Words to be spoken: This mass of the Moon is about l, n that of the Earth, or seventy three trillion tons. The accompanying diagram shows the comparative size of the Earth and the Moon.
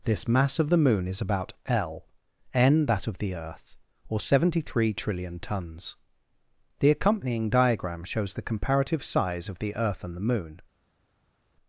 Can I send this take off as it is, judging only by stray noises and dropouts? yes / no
yes